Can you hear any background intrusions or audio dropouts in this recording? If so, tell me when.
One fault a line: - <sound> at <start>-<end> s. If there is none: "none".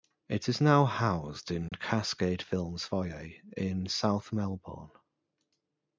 - dropout at 1.7-1.7 s